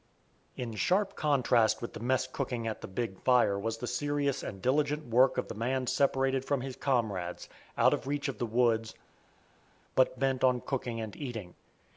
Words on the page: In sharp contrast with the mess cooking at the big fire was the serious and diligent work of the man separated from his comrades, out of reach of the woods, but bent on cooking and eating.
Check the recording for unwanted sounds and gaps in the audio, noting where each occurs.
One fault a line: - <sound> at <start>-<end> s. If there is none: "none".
none